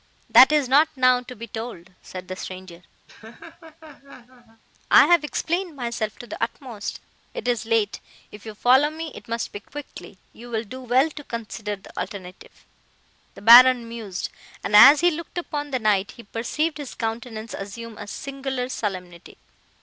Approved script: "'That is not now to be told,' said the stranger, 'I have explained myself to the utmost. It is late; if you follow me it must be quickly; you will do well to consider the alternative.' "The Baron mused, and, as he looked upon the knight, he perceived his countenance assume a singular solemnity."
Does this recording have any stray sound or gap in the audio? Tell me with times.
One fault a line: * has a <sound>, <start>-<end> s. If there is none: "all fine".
* has a laugh, 3.1-4.6 s